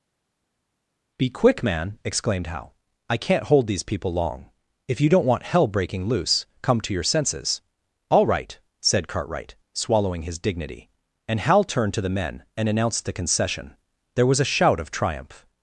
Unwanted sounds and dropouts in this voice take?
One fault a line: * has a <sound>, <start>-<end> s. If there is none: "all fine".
all fine